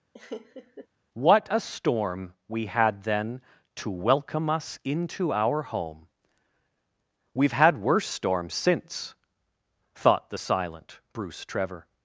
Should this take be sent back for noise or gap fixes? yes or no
yes